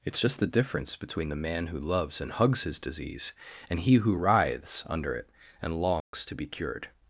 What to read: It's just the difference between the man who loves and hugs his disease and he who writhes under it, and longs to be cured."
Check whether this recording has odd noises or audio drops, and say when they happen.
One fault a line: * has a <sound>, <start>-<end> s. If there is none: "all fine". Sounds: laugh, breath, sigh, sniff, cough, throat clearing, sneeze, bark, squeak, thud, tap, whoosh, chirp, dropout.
* has a dropout, 6.0-6.1 s